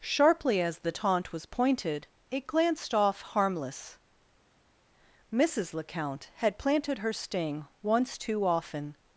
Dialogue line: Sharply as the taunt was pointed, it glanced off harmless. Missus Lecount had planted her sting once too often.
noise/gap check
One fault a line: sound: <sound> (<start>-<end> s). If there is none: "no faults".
no faults